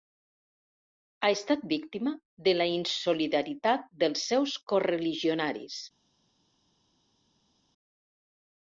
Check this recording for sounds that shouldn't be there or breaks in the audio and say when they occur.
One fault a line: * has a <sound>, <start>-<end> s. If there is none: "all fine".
all fine